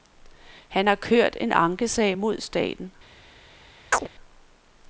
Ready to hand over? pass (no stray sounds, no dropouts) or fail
fail